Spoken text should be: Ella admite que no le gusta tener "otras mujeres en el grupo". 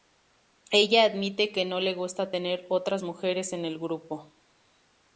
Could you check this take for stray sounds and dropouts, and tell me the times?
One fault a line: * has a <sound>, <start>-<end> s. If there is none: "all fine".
all fine